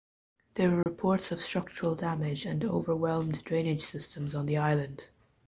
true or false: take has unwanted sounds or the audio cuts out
true